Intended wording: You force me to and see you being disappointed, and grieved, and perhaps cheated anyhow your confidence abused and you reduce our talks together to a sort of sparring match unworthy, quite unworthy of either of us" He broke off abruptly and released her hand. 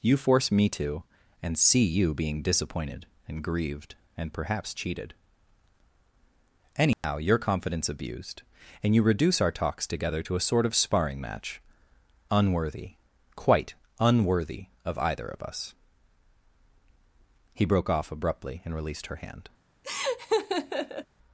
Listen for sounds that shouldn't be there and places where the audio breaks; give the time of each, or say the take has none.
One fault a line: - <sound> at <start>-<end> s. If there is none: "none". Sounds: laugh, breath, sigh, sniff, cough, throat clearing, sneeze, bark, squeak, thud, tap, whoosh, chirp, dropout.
- dropout at 6.9-7.0 s
- laugh at 19.8-21.1 s